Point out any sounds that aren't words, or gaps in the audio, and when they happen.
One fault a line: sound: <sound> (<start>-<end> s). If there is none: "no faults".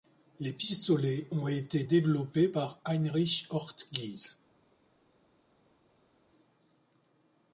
no faults